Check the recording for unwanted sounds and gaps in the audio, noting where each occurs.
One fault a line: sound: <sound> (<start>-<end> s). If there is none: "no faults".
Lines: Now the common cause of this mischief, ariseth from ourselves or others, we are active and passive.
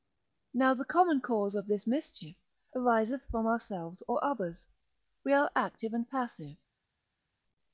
no faults